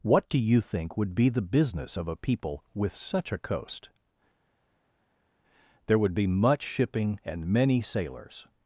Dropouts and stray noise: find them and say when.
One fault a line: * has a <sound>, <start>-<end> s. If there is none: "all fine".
all fine